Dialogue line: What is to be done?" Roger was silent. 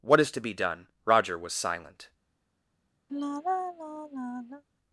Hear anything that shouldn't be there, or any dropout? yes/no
yes